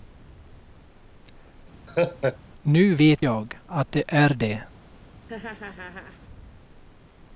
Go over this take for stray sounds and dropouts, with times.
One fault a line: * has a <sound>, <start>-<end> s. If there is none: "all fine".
* has a laugh, 1.9-2.4 s
* has a laugh, 5.3-6.2 s